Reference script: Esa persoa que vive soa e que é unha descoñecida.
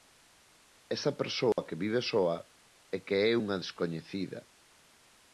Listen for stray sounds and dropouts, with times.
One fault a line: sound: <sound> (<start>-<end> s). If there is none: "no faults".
sound: dropout (1.5-1.6 s)